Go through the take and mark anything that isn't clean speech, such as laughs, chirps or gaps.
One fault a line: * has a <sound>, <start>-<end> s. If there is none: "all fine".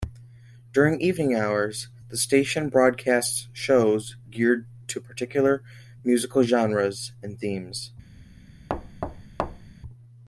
* has a thud, 8.7-9.7 s